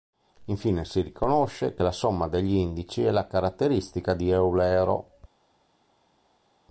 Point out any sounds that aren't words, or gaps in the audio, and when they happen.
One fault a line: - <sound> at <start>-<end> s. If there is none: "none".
none